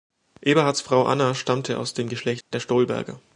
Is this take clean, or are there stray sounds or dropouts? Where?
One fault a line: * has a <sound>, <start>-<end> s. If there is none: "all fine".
* has a dropout, 2.4-2.5 s